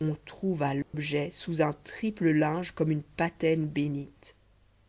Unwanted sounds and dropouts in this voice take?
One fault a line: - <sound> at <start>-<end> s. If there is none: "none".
- dropout at 0.8-0.9 s